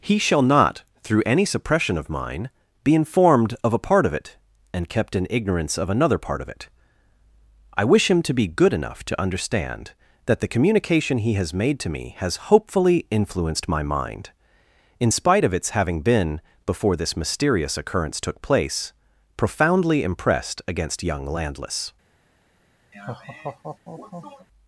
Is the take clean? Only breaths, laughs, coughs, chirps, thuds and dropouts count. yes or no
no